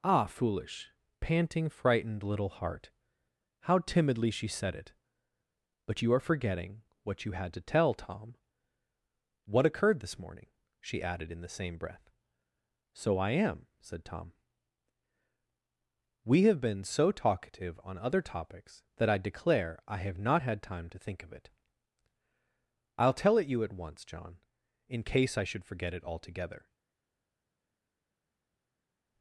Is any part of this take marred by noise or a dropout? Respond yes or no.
no